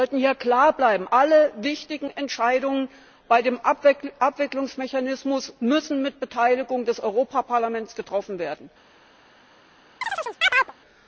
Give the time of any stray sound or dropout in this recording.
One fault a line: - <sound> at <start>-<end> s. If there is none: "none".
- chirp at 10.0-10.7 s